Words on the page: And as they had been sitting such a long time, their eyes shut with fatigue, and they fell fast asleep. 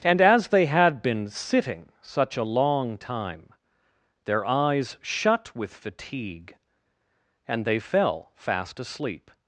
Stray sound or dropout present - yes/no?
no